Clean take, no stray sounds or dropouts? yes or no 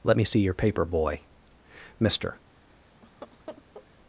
no